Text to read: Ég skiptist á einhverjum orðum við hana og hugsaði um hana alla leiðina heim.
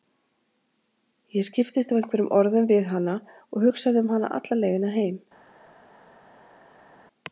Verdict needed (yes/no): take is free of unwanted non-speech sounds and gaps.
yes